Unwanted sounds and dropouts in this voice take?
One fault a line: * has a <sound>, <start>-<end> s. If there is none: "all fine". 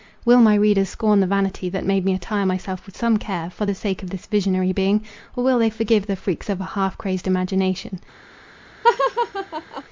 * has a laugh, 8.8-9.8 s